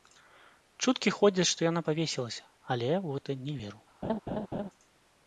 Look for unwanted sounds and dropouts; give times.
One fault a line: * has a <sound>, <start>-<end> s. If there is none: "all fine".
* has a laugh, 4.0-4.7 s